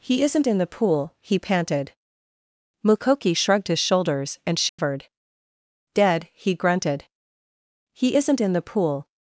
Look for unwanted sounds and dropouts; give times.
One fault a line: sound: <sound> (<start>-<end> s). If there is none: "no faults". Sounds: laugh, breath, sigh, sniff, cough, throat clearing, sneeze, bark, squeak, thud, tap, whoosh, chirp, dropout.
sound: dropout (4.7-4.8 s)